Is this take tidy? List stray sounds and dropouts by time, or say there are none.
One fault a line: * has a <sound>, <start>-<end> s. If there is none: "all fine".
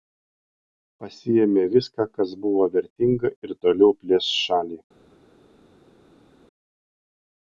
all fine